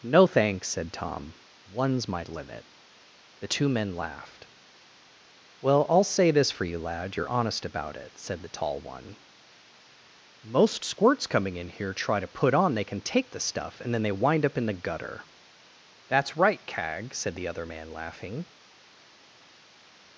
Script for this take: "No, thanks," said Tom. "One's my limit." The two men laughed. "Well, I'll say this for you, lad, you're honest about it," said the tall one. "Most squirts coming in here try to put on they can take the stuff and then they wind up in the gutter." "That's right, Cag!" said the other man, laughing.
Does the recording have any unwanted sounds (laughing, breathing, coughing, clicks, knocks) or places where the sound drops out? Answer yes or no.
no